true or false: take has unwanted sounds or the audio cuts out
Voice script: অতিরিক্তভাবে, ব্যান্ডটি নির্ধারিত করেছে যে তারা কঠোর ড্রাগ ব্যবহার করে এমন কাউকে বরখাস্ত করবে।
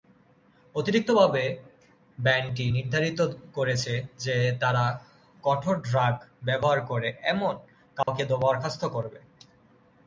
true